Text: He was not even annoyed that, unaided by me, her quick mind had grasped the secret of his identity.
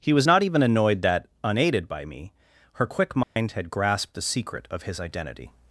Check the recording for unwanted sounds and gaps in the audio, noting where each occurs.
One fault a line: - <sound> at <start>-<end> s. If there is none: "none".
- dropout at 3.2-3.4 s